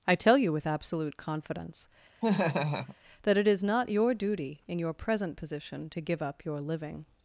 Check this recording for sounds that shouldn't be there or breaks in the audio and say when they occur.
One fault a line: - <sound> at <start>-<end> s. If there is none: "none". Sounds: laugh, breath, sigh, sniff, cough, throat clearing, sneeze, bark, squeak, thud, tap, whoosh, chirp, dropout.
- laugh at 2.2-3.0 s